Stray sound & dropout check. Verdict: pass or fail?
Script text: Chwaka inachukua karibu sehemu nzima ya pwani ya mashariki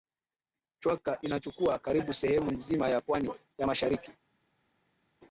pass